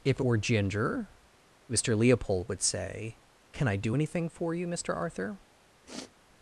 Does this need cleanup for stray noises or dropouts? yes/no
yes